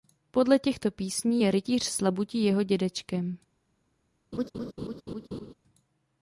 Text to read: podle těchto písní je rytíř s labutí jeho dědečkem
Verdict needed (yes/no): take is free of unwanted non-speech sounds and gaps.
no